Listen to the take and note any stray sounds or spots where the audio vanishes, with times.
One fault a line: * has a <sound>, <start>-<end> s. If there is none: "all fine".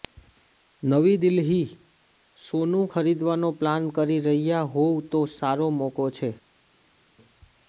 all fine